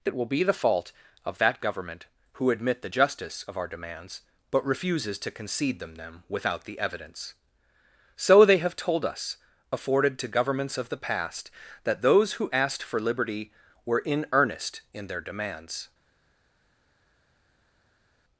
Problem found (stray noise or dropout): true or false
false